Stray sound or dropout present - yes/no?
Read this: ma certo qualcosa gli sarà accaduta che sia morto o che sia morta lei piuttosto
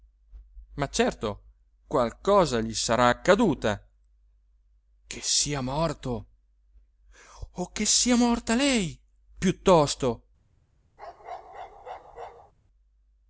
yes